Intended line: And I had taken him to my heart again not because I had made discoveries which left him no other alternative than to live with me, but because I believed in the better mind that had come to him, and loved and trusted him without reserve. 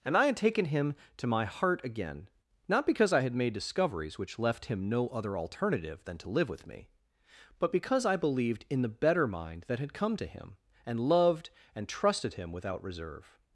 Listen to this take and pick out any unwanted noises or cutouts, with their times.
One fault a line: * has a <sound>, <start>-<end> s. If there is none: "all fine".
all fine